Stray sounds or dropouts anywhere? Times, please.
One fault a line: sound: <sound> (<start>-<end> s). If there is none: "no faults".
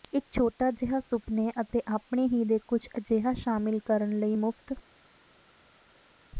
no faults